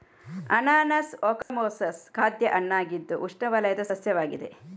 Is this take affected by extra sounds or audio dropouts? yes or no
yes